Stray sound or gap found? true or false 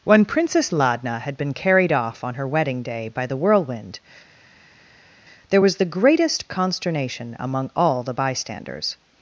false